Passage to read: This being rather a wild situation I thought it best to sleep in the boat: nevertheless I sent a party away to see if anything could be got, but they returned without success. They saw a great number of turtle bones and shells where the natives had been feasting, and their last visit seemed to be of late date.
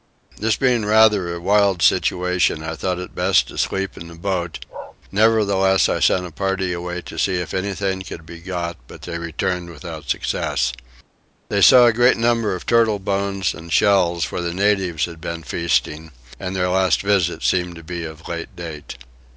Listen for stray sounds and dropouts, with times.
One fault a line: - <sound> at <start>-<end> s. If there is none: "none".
- bark at 4.7-5.0 s